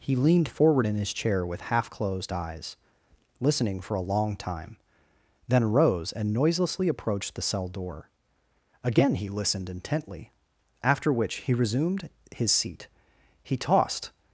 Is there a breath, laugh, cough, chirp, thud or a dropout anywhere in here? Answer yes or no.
no